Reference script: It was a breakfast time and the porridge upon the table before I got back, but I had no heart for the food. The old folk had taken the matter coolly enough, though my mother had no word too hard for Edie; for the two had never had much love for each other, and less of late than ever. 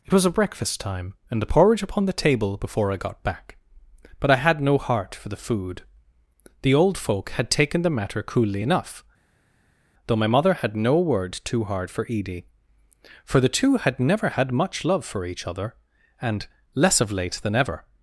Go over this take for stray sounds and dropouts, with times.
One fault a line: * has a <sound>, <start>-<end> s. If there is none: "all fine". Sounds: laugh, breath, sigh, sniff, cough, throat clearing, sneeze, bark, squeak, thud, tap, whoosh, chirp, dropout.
all fine